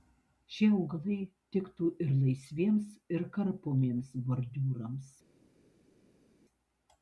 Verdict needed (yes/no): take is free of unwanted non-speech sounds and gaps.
yes